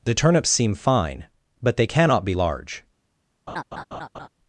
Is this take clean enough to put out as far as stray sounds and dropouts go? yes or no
no